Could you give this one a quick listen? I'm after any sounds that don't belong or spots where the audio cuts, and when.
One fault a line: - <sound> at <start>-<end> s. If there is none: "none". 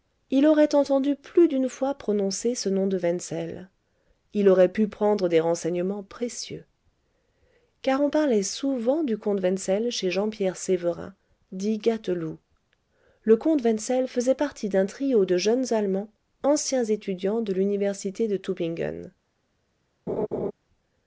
- laugh at 20.1-20.5 s